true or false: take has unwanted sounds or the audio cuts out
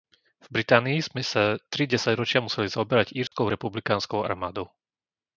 true